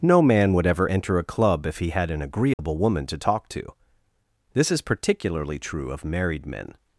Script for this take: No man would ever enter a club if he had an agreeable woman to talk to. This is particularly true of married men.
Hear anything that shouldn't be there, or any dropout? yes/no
yes